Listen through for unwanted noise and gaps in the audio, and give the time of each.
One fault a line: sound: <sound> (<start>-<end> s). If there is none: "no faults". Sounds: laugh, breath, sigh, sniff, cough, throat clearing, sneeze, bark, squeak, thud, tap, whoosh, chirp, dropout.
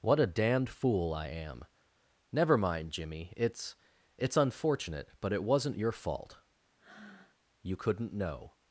sound: breath (6.8-7.4 s)